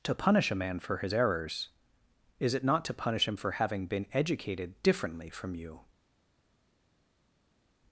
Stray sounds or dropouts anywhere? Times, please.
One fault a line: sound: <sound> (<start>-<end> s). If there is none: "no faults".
no faults